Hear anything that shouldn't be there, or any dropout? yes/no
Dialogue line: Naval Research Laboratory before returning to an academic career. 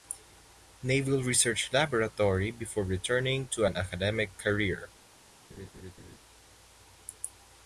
yes